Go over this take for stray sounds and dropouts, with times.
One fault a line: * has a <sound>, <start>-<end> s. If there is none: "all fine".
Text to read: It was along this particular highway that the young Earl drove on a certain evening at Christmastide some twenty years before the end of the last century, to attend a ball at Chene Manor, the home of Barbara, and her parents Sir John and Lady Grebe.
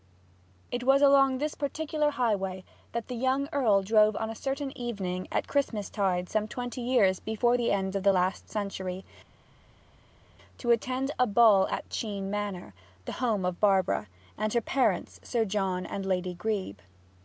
all fine